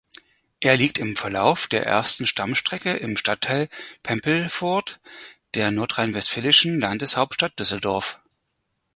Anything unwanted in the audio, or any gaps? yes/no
no